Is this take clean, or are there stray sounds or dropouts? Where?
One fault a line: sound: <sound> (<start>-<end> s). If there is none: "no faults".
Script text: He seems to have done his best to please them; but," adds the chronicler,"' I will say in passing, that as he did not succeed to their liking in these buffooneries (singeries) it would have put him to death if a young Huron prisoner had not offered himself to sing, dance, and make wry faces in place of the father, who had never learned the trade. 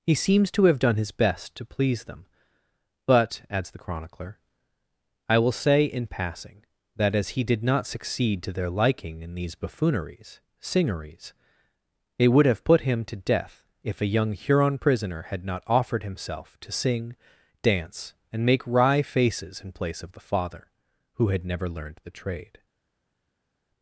no faults